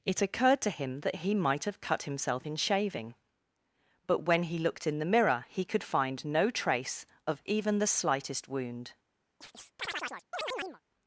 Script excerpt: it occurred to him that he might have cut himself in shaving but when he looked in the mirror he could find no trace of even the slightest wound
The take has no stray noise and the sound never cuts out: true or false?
false